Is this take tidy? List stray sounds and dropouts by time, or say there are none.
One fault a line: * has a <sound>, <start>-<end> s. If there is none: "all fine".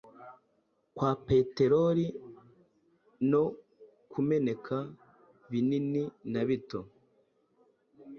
all fine